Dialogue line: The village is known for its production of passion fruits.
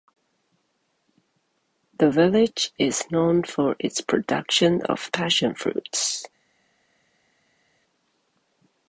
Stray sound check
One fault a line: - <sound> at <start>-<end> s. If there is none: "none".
none